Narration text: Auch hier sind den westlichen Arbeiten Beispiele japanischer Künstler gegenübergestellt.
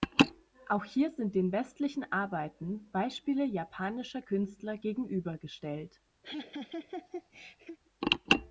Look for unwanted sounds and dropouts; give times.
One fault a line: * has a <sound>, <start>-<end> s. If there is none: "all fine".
* has a laugh, 6.2-7.8 s